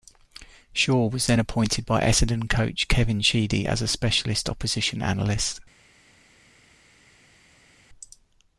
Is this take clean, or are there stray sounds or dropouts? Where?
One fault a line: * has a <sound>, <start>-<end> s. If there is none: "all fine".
all fine